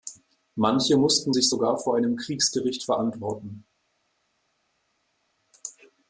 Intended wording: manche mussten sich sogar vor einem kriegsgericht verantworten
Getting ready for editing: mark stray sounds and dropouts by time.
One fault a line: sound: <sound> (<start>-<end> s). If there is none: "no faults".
no faults